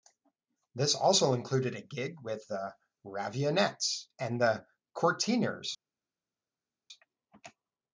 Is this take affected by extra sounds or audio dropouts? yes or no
no